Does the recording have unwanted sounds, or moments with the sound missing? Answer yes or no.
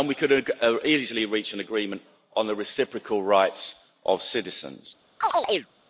yes